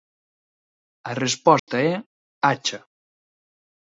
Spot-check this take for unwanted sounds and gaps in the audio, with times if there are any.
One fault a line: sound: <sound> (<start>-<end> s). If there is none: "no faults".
sound: dropout (1.6-1.7 s)